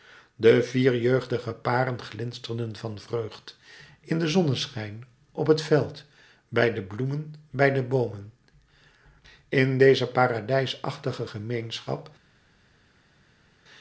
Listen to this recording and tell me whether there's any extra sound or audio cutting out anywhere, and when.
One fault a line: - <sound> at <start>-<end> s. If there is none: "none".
none